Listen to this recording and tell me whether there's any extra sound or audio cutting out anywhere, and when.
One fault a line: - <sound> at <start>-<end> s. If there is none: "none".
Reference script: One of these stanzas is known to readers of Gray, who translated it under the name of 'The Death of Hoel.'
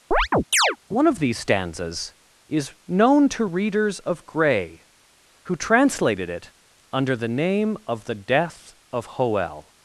- chirp at 0.1-0.8 s